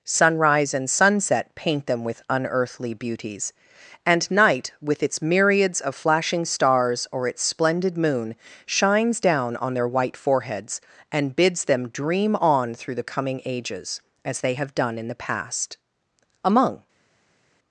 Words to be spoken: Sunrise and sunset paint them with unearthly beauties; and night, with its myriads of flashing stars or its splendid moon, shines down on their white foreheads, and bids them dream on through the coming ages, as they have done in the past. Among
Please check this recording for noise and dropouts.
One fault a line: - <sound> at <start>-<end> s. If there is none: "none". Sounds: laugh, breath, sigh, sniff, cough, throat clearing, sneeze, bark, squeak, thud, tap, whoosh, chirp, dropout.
none